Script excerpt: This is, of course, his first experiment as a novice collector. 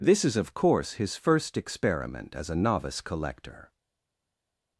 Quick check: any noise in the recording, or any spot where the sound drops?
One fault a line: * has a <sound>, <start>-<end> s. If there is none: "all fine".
all fine